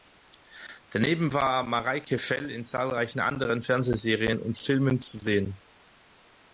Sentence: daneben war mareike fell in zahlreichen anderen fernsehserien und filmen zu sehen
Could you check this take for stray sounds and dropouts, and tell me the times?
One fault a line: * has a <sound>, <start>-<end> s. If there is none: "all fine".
all fine